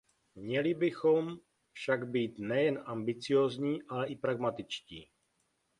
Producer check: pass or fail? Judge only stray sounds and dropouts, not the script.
pass